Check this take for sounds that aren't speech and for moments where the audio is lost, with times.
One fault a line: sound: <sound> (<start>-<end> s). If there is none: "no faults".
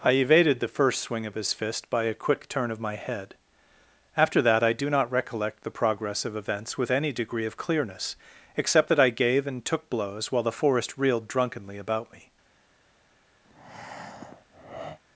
sound: breath (13.4-15.0 s)